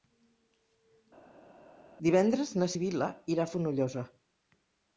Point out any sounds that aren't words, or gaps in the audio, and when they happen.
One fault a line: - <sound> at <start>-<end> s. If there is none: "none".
none